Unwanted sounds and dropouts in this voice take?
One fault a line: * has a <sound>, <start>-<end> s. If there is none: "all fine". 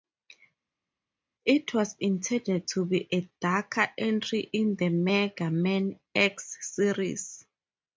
all fine